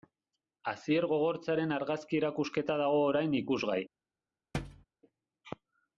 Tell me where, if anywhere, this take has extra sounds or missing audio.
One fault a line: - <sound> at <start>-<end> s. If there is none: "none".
- thud at 4.5-4.9 s